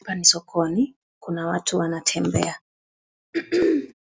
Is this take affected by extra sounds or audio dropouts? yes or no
yes